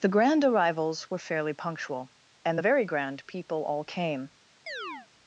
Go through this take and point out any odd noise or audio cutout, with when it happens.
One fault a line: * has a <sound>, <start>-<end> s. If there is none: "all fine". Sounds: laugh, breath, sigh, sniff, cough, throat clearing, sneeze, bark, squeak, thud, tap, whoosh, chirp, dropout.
* has a chirp, 4.7-5.1 s